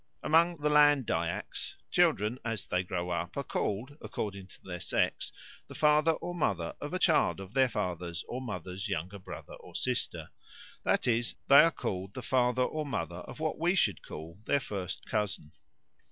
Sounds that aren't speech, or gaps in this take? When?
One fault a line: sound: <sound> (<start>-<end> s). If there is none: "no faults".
no faults